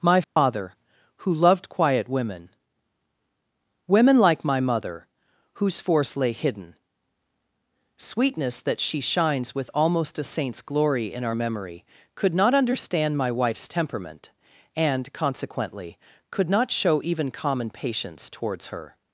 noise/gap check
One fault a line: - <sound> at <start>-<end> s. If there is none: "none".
- dropout at 0.2-0.4 s